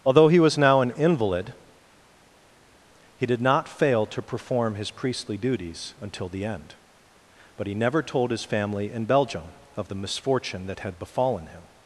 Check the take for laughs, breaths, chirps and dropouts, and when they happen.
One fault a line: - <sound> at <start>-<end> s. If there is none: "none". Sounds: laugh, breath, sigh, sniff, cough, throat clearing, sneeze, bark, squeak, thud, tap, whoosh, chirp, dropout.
none